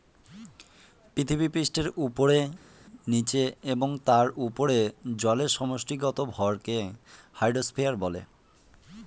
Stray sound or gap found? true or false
false